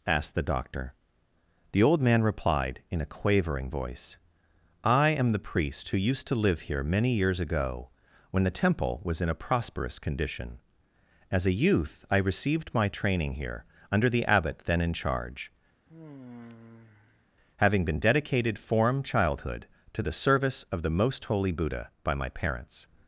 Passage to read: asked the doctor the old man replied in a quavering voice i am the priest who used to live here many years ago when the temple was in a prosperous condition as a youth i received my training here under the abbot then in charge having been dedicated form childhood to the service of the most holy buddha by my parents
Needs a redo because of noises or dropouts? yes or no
yes